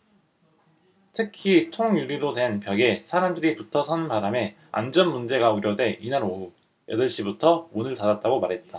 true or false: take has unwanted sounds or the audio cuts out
false